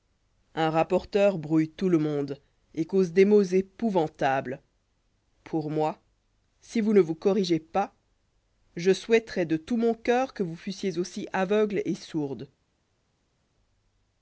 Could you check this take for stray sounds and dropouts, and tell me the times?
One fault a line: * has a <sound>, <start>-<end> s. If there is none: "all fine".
all fine